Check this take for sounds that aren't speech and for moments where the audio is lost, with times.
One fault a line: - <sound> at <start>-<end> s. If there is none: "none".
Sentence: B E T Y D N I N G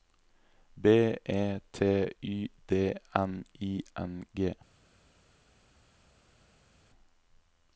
none